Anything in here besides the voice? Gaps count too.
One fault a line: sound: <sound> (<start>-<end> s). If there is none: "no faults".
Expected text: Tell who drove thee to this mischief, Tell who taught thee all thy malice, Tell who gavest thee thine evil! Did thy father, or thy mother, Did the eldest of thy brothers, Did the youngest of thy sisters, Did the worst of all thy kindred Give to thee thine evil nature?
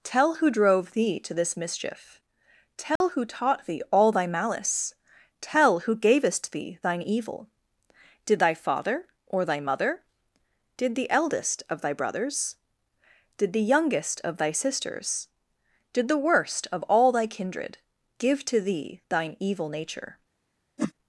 sound: dropout (3.0-3.0 s)
sound: whoosh (20.8-20.9 s)